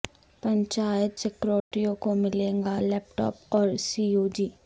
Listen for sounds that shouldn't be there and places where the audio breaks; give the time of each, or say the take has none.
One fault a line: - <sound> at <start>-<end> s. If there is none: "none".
- dropout at 1.6-1.7 s